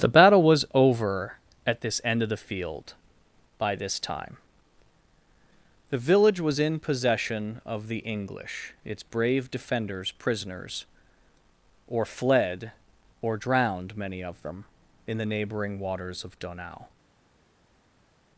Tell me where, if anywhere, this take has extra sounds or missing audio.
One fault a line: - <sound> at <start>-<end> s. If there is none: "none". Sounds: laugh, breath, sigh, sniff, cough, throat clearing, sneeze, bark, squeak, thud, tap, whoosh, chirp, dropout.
none